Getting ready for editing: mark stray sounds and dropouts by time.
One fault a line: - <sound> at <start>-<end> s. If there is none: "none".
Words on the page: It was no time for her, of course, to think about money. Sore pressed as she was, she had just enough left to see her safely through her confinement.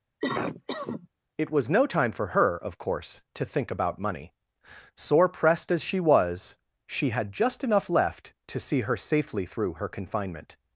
- cough at 0.2-1.1 s